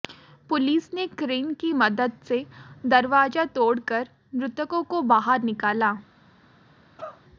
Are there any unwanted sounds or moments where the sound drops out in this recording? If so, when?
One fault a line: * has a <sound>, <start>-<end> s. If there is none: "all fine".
* has a cough, 7.0-7.2 s